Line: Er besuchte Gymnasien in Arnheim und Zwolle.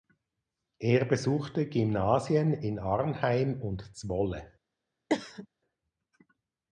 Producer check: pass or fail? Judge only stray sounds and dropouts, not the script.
fail